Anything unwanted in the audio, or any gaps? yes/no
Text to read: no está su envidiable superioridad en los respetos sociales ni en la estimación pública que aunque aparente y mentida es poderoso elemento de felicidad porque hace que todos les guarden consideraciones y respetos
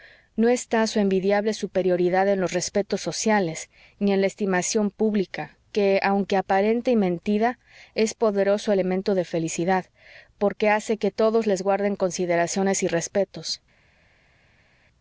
no